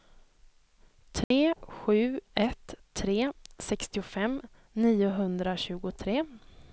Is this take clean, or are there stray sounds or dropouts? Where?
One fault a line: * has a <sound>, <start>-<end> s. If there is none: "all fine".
* has a dropout, 1.2-1.3 s